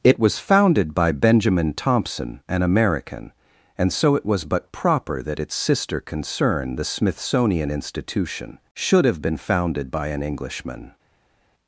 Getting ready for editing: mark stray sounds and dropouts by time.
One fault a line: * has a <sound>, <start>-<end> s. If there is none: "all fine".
all fine